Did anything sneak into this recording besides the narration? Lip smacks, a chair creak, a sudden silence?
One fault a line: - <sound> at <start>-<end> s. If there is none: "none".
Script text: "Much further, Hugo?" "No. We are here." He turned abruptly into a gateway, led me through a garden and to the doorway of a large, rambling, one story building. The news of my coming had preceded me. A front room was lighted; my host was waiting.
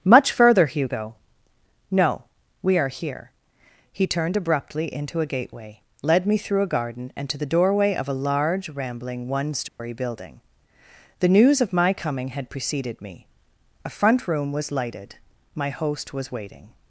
- dropout at 9.7-9.8 s